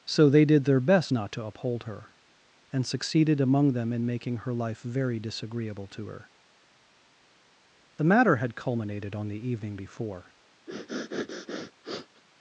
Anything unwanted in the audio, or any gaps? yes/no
yes